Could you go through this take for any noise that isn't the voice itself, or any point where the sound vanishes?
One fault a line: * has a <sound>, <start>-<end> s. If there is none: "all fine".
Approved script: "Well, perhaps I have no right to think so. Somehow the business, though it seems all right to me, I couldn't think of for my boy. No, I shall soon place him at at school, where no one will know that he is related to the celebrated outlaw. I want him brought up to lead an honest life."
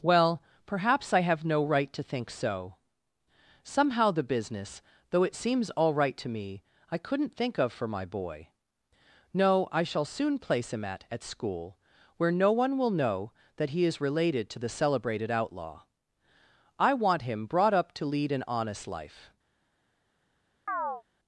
* has a chirp, 20.7-21.0 s